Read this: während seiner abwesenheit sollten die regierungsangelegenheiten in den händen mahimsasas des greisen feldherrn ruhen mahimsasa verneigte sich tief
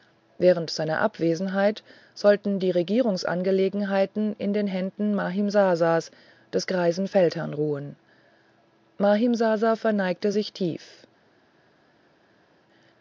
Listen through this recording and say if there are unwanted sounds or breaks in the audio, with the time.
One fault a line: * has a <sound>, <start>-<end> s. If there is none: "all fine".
all fine